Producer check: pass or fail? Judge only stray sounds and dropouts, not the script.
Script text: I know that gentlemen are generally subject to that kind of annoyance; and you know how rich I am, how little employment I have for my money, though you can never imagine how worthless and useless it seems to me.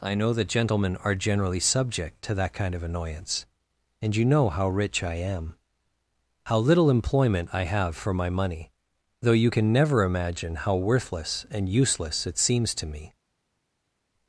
pass